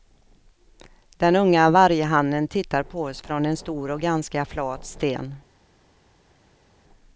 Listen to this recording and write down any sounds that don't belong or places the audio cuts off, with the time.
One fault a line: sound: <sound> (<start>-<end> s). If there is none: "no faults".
no faults